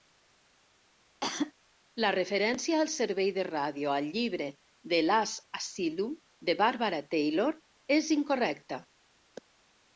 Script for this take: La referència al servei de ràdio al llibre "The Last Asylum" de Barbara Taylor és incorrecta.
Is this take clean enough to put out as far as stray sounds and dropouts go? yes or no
no